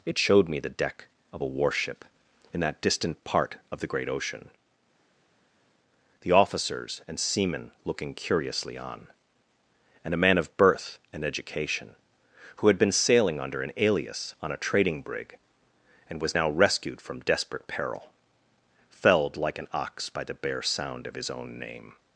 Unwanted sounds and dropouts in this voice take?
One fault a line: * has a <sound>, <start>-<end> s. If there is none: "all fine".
all fine